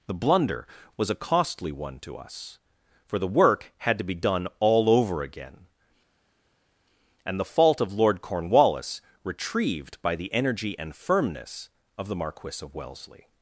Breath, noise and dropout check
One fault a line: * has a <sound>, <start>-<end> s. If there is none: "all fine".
all fine